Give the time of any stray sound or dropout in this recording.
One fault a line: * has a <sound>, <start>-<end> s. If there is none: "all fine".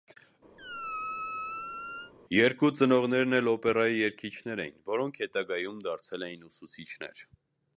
* has a squeak, 0.6-2.1 s